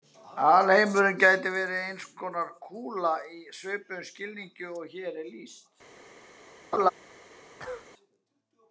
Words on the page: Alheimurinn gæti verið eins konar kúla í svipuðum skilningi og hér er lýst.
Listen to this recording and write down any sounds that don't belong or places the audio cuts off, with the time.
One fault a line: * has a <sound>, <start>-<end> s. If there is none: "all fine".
* has a laugh, 6.7-6.9 s
* has a cough, 7.6-7.9 s